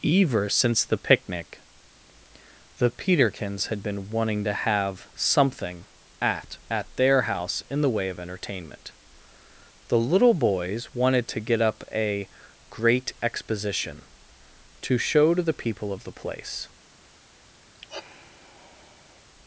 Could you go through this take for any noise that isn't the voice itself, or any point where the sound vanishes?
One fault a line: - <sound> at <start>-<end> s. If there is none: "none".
- sigh at 17.7-19.3 s